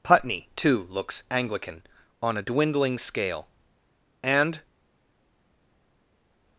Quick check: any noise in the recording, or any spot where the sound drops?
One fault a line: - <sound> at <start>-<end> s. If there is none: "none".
none